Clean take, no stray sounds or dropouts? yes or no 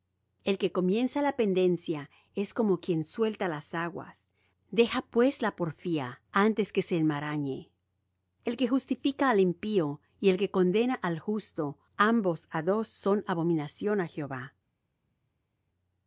yes